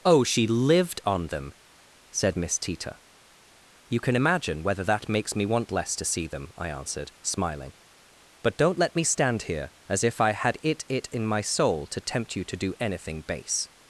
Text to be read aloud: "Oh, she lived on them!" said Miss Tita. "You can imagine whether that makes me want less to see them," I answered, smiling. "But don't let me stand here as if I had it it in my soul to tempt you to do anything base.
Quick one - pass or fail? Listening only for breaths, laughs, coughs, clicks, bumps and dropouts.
pass